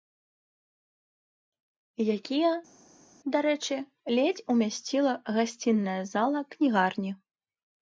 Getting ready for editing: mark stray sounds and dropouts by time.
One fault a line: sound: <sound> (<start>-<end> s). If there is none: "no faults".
no faults